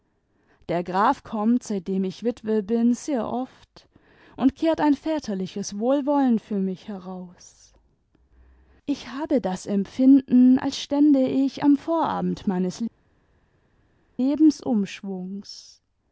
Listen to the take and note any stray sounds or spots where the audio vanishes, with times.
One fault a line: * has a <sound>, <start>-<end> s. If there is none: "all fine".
all fine